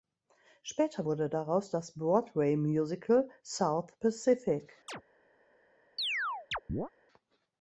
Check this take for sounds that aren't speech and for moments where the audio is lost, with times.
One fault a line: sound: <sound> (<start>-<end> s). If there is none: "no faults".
sound: chirp (4.9-5.0 s)
sound: chirp (6.0-6.9 s)